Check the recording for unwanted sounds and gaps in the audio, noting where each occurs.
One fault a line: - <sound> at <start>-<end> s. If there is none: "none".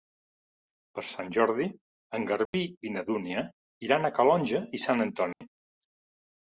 - dropout at 2.5-2.5 s
- dropout at 5.3-5.4 s